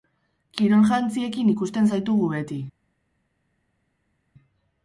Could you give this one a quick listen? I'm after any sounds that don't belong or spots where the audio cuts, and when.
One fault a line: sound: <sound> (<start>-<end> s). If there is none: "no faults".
no faults